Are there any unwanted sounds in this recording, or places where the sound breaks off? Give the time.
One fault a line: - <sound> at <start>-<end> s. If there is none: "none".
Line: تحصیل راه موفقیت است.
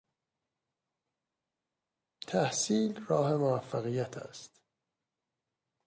none